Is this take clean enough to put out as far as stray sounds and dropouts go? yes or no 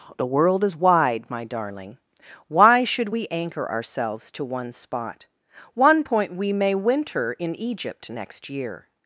yes